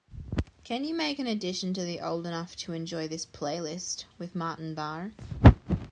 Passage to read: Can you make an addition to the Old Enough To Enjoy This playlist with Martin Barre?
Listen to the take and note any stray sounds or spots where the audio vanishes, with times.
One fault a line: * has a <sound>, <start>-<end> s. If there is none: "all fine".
all fine